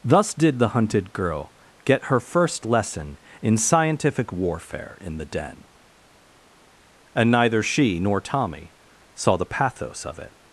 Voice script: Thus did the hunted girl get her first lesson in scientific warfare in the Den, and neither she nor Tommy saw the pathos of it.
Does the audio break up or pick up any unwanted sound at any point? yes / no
no